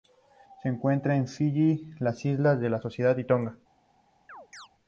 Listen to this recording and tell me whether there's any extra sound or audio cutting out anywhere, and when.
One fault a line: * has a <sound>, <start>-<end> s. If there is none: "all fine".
* has a chirp, 4.3-4.7 s